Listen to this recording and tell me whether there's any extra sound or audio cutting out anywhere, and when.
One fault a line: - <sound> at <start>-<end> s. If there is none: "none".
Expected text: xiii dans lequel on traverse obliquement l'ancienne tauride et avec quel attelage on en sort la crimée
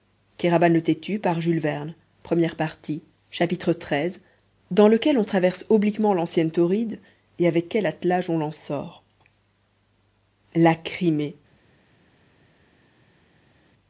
none